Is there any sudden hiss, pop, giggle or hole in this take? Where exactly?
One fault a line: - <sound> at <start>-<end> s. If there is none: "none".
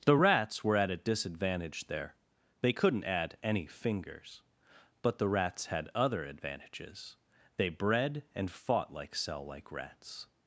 none